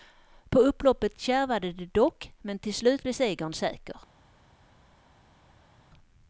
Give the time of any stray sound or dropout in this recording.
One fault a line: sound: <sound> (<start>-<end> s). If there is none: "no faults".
no faults